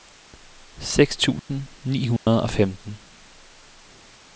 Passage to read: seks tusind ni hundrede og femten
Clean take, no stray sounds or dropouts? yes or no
no